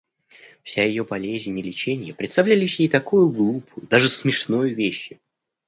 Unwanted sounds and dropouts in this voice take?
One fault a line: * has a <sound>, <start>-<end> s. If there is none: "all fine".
all fine